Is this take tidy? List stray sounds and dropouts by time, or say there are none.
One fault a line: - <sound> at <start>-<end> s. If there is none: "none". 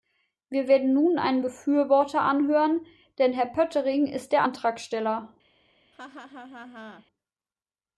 - laugh at 5.9-7.1 s